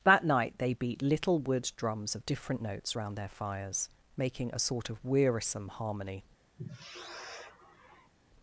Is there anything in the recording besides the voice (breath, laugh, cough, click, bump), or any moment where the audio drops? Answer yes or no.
yes